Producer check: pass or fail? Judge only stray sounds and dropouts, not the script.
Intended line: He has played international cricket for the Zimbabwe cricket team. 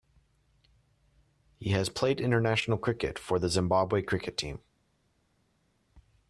pass